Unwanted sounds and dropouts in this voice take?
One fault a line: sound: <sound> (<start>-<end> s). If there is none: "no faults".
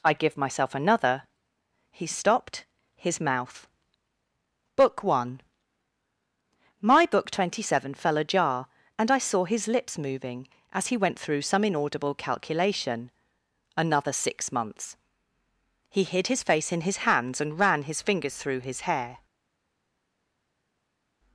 no faults